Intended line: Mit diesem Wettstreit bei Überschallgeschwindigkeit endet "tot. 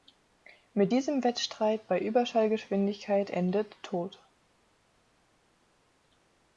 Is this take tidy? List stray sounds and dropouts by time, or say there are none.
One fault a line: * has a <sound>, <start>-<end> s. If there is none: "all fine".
all fine